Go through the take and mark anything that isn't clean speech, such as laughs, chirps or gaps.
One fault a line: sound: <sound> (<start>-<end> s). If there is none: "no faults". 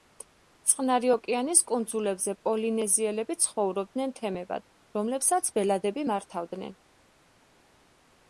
no faults